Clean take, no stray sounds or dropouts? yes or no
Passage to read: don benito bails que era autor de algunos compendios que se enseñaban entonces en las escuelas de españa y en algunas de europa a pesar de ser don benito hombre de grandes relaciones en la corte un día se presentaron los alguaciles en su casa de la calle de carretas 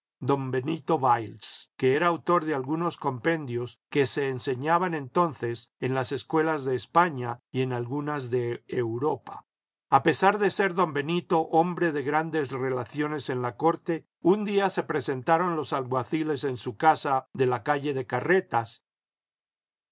yes